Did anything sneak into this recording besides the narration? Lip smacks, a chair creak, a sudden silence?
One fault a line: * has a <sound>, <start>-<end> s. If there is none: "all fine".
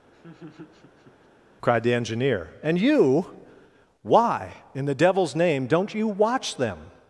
* has a laugh, 0.1-1.3 s